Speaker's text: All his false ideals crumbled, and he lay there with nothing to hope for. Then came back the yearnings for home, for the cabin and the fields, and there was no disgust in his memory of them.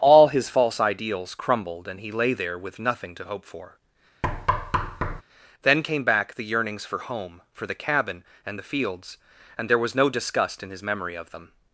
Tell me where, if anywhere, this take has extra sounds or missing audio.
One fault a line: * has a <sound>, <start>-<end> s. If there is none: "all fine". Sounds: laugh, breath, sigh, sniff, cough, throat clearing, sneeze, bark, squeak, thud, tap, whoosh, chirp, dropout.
* has a thud, 4.2-5.2 s